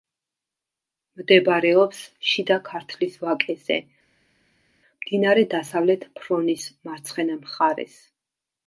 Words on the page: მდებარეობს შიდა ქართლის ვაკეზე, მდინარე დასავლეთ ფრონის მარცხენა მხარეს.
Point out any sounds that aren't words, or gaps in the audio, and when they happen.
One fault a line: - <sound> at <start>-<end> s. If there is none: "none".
none